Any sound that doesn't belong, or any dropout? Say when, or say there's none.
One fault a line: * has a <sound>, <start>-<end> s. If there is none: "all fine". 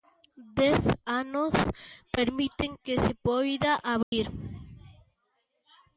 * has a dropout, 4.0-4.1 s